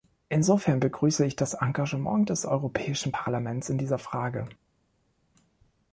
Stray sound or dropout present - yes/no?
no